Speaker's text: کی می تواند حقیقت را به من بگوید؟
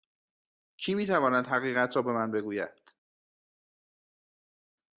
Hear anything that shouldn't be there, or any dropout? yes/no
no